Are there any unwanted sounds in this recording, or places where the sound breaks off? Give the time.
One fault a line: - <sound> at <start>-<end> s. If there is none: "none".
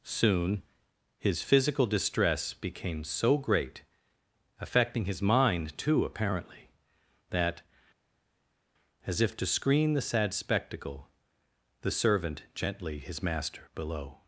none